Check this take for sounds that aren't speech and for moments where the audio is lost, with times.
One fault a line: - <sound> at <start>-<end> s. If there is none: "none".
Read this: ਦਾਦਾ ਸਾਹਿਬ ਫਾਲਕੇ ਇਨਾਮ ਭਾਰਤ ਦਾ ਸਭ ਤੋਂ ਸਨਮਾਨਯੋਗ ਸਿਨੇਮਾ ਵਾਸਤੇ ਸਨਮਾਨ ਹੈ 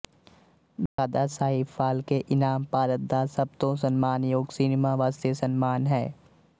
- dropout at 0.9-1.0 s